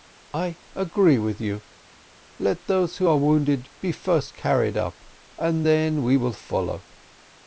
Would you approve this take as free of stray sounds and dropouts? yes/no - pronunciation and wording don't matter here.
yes